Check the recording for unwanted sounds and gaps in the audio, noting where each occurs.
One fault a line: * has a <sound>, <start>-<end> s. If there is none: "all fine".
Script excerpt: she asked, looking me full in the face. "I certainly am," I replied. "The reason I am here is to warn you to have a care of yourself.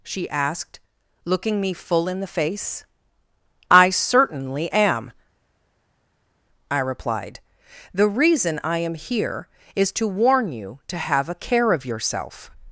all fine